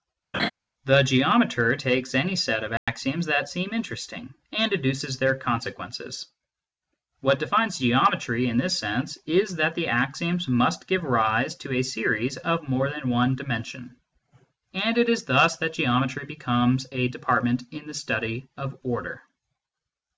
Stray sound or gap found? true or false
true